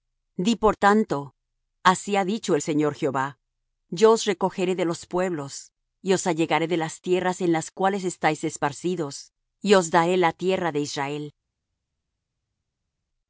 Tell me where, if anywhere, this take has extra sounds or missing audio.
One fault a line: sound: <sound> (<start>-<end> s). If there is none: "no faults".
no faults